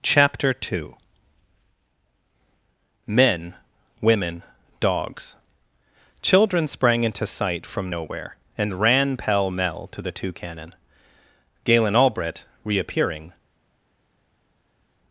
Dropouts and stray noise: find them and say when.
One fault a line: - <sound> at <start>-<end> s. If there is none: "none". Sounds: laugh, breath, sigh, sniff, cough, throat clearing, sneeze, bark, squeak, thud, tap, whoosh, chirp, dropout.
none